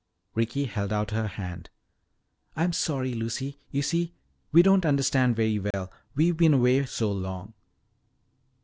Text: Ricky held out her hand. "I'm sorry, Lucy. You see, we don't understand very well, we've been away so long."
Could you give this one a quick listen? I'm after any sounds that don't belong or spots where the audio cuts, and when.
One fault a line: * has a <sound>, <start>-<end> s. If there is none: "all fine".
* has a dropout, 5.7-5.7 s